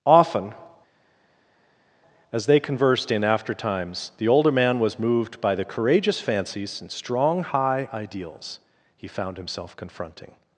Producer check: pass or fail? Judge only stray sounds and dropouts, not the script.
pass